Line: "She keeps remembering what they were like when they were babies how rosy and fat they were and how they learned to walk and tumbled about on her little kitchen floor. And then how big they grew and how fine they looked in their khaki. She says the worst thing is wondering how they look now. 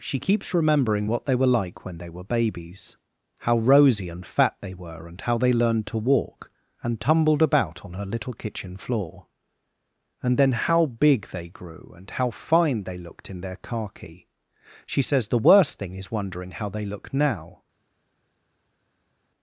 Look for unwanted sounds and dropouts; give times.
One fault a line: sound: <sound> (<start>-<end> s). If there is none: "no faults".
no faults